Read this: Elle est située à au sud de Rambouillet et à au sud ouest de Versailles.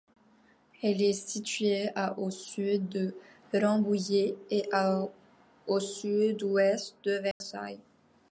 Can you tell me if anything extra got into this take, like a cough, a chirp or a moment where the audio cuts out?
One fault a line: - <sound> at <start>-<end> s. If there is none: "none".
- dropout at 7.3-7.4 s